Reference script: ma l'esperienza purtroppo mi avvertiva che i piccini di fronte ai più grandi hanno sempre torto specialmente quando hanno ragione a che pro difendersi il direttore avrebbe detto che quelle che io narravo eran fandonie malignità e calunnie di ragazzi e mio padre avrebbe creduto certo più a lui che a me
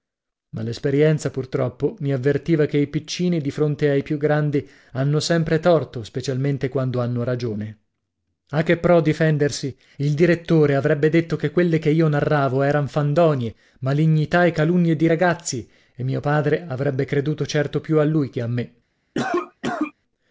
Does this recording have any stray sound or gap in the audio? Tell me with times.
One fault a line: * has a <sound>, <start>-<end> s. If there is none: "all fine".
* has a cough, 19.2-19.9 s